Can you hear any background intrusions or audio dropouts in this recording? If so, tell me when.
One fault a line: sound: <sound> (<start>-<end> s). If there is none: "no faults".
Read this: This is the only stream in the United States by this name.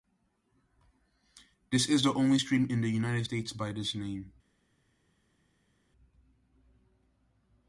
no faults